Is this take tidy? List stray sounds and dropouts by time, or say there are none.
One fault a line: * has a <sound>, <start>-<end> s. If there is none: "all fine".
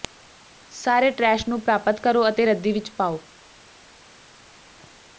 all fine